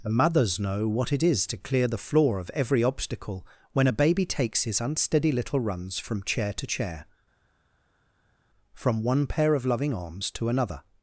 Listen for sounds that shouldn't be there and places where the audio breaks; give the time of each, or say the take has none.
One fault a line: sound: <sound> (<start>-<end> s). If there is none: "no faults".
no faults